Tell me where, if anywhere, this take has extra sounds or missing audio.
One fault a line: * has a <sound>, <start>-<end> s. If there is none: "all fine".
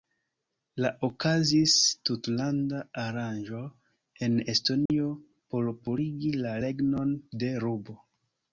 * has a dropout, 4.9-4.9 s